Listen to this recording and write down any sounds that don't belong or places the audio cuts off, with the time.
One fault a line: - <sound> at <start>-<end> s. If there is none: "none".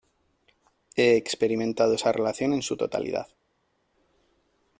none